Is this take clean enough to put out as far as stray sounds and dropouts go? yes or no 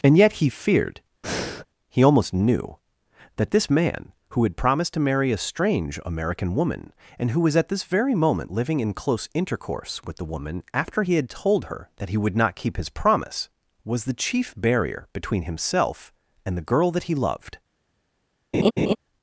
no